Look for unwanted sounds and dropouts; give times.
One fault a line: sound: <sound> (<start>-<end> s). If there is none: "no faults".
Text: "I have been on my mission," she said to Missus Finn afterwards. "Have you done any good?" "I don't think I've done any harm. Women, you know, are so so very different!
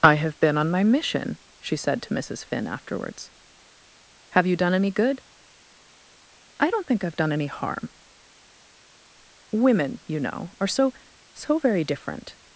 no faults